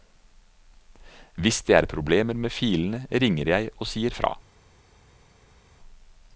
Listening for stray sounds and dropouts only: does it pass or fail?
pass